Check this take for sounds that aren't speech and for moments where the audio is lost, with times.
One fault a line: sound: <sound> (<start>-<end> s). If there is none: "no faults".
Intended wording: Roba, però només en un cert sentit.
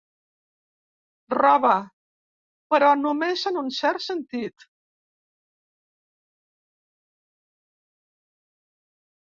no faults